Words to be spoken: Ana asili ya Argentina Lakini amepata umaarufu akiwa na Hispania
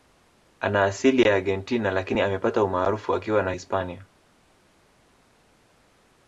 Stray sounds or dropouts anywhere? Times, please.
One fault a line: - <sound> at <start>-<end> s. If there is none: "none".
none